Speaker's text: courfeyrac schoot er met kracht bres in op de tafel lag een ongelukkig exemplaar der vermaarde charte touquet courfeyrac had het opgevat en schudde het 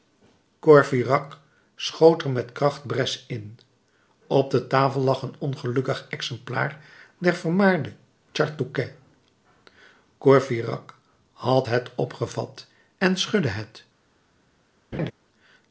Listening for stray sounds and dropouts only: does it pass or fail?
fail